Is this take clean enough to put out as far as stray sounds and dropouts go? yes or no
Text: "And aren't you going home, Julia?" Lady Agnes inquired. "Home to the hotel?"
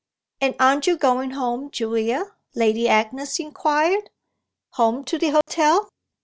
no